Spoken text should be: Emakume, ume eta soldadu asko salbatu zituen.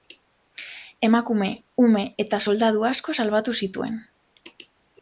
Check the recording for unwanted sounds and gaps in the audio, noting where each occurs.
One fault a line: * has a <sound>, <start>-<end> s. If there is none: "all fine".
all fine